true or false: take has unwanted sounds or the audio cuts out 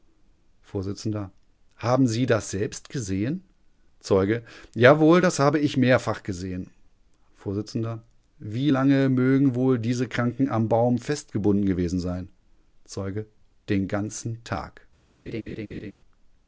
true